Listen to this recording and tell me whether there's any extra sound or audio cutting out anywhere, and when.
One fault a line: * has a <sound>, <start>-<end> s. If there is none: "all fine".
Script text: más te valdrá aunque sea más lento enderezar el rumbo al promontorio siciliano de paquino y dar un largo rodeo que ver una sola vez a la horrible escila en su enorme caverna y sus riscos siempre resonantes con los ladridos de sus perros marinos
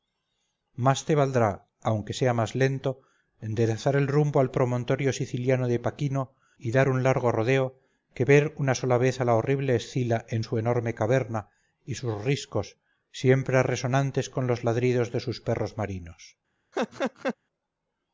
* has a laugh, 16.7-17.4 s